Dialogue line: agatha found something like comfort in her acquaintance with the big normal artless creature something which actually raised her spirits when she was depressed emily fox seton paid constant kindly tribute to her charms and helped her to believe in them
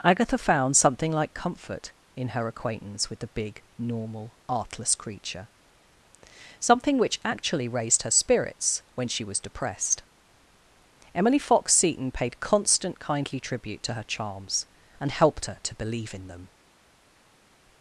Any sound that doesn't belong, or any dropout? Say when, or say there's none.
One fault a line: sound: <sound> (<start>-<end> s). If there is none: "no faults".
no faults